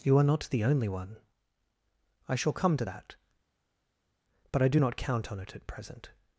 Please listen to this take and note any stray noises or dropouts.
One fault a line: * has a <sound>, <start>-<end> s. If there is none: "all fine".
all fine